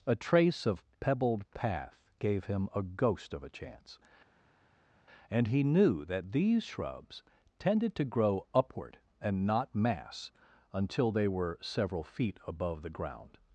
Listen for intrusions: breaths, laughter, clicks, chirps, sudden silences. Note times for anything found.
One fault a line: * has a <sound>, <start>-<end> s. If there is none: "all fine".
all fine